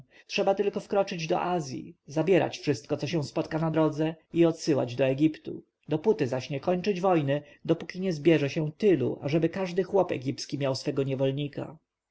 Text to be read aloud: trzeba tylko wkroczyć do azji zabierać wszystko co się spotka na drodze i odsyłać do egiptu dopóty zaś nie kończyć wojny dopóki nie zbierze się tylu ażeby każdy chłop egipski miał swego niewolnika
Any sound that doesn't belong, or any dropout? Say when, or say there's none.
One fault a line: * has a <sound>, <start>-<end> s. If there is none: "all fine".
all fine